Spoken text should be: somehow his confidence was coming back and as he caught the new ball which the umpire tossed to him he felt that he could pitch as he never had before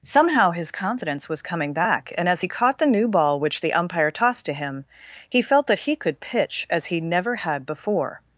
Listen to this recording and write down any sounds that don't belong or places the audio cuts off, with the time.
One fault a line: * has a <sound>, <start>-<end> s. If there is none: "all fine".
all fine